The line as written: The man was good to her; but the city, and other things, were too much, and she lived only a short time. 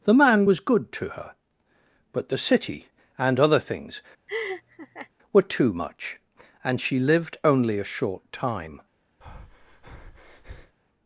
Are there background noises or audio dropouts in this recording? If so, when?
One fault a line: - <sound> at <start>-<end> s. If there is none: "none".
- laugh at 4.3-5.1 s
- breath at 9.2-10.8 s